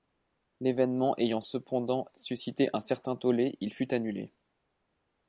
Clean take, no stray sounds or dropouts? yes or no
yes